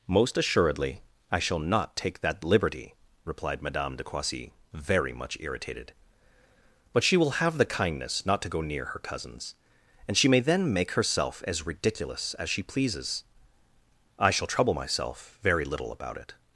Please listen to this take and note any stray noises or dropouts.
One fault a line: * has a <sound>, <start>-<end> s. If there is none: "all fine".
all fine